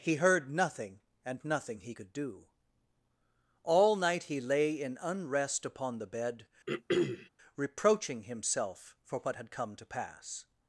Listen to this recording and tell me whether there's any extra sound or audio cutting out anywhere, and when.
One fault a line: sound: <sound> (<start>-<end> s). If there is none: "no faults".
sound: throat clearing (6.7-7.3 s)